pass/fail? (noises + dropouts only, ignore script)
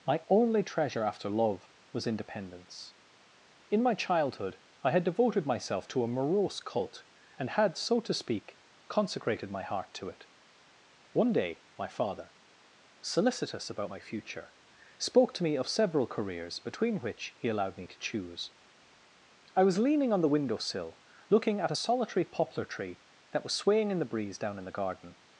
pass